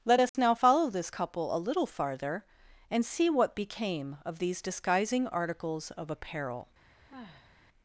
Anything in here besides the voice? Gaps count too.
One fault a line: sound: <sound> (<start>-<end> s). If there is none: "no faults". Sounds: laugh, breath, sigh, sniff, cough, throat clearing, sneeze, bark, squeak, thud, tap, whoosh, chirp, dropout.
sound: dropout (0.3-0.3 s)
sound: sigh (7.1-7.5 s)